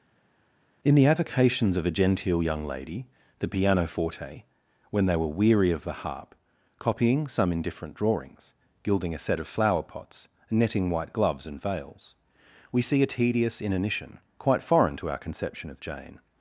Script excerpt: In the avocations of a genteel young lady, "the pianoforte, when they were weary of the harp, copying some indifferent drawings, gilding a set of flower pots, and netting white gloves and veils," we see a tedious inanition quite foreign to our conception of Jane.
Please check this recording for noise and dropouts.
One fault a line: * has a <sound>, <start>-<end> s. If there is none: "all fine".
all fine